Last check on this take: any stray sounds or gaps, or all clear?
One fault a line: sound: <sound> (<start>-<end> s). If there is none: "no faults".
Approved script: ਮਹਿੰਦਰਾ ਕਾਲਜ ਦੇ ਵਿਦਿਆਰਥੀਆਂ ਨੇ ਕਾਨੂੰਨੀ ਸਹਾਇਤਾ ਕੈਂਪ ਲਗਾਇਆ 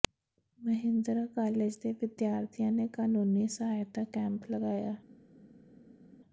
no faults